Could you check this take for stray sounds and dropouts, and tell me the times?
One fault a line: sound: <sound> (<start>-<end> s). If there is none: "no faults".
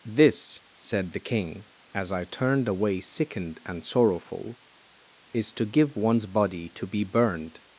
no faults